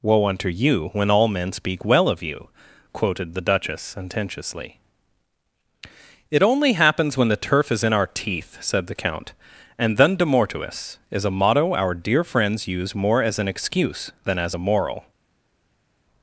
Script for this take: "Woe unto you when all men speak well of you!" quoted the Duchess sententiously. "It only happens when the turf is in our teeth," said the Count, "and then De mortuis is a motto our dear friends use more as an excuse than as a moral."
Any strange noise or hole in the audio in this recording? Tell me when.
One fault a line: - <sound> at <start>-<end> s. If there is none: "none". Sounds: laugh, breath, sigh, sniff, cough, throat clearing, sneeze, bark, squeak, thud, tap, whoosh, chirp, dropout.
none